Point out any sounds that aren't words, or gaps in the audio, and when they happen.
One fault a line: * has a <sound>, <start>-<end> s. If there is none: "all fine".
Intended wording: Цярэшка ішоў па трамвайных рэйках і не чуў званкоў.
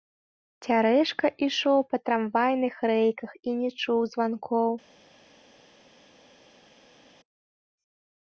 all fine